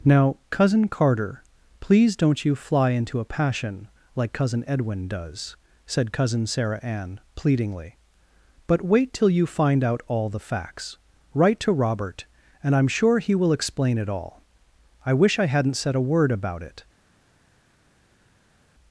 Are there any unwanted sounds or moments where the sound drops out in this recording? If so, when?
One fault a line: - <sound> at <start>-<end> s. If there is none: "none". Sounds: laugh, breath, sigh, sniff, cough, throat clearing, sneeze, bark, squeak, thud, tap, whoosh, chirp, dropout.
none